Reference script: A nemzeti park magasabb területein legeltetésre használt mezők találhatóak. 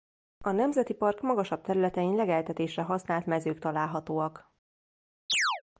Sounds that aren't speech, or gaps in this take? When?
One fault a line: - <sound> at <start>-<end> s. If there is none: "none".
- chirp at 5.3-5.6 s